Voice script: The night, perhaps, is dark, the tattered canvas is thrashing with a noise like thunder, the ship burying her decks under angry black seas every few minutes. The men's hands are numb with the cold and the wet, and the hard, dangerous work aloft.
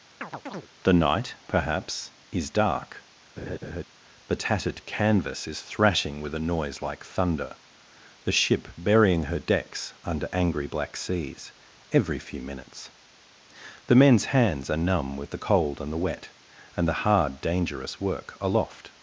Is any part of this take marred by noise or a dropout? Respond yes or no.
yes